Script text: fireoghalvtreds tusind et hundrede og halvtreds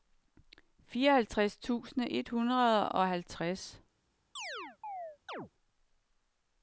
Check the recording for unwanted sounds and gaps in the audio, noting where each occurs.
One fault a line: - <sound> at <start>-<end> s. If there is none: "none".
- chirp at 4.4-5.5 s